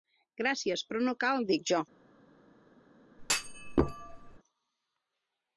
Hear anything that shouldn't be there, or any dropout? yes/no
yes